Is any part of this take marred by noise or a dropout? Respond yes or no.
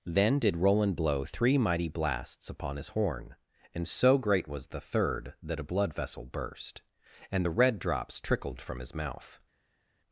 no